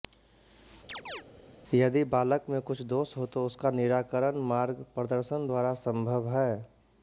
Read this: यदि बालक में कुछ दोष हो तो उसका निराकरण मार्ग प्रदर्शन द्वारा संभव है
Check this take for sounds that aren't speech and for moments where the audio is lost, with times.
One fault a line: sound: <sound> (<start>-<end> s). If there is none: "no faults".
sound: chirp (0.9-1.2 s)